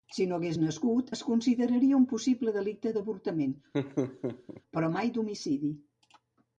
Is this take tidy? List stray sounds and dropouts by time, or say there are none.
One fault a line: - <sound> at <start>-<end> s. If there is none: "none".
- laugh at 3.7-4.6 s